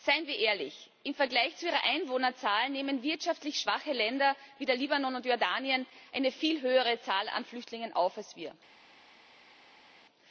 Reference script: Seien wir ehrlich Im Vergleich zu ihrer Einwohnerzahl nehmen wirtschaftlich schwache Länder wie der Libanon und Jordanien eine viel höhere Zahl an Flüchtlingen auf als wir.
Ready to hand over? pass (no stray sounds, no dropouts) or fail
pass